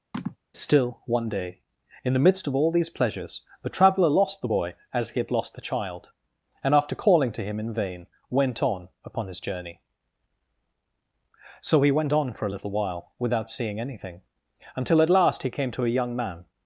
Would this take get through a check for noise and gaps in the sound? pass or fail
fail